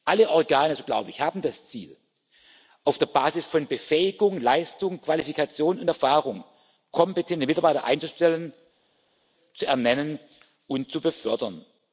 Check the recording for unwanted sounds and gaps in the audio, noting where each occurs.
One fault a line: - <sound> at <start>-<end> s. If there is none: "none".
none